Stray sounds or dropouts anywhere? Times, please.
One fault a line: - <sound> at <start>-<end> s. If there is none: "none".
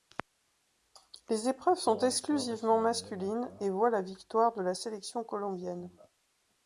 none